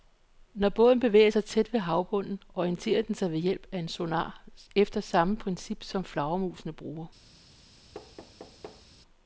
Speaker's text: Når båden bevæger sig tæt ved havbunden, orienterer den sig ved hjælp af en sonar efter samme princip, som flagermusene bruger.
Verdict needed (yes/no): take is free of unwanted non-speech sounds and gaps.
no